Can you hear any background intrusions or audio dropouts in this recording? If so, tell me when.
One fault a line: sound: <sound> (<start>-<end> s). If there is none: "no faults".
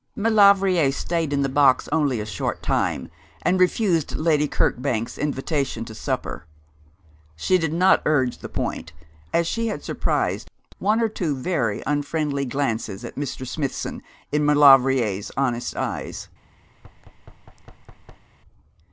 sound: thud (16.7-18.3 s)